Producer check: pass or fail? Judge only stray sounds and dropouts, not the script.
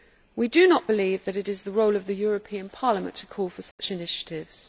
fail